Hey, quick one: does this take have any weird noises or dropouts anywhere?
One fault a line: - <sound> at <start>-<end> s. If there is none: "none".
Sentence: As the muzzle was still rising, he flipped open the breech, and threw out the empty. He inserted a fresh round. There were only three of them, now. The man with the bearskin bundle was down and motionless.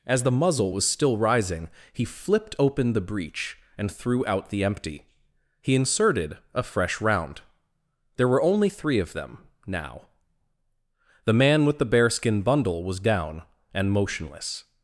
none